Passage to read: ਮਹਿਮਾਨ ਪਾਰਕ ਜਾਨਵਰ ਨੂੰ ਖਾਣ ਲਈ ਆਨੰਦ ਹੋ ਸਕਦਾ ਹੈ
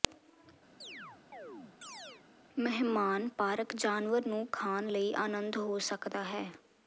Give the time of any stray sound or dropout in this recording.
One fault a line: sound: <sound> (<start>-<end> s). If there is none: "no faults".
sound: chirp (0.8-2.2 s)